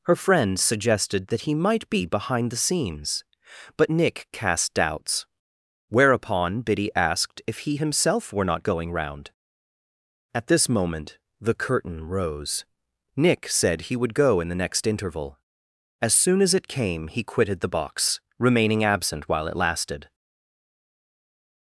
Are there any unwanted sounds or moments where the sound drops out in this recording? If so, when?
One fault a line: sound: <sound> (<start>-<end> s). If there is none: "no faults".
no faults